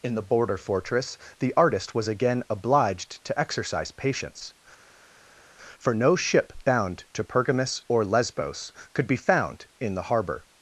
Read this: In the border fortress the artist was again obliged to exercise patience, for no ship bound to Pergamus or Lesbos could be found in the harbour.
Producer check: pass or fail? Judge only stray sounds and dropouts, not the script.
pass